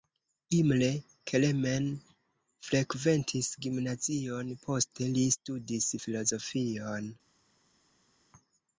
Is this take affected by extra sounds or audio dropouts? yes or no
no